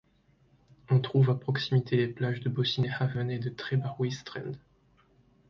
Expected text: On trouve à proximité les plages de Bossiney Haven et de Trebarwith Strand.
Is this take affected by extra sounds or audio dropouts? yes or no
no